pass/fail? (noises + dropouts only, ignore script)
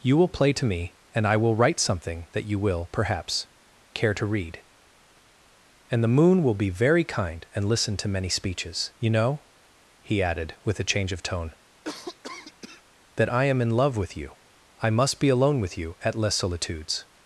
fail